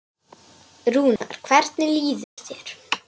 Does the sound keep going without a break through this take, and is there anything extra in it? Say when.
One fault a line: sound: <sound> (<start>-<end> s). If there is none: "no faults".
sound: dropout (1.2-1.2 s)
sound: dropout (2.2-2.4 s)